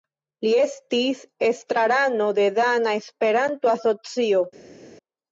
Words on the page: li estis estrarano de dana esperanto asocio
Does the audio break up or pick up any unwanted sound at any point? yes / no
no